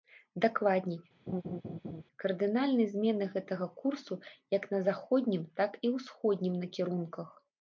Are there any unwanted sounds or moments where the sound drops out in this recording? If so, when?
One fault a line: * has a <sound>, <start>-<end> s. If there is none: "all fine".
* has a laugh, 1.3-2.0 s